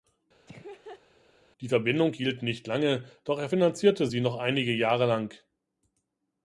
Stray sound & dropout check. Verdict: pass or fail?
fail